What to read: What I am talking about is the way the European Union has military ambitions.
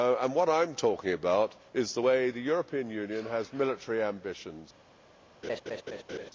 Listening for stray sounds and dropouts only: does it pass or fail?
fail